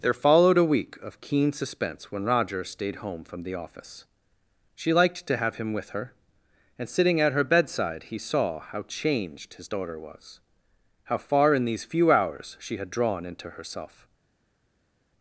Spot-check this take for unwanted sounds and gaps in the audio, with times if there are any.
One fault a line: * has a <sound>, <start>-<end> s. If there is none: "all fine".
all fine